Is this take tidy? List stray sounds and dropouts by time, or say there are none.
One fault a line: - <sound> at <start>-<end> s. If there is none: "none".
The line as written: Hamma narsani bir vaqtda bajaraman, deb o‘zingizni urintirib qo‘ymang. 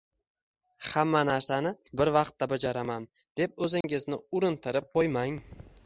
- dropout at 3.8-3.8 s